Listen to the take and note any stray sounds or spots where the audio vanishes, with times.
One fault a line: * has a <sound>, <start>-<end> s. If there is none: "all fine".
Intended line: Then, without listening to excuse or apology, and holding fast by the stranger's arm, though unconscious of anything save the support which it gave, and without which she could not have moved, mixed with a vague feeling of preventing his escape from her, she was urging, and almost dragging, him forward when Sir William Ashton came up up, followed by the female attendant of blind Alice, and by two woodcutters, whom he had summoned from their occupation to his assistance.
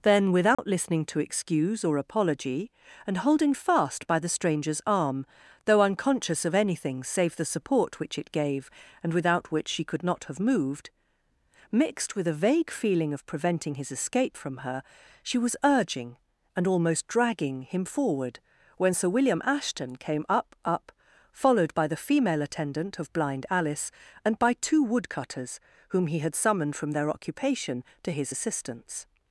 * has a dropout, 0.5-0.6 s